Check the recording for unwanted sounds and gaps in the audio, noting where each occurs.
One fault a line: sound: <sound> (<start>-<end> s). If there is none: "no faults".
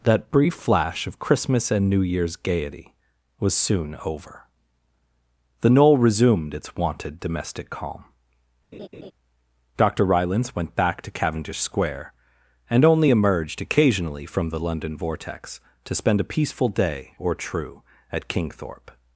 sound: laugh (8.7-9.1 s)